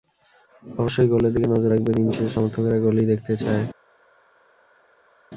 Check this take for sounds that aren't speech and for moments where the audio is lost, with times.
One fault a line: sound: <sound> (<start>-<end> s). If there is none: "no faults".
no faults